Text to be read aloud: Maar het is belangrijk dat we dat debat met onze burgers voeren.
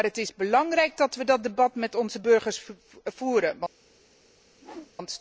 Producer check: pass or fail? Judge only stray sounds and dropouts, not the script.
fail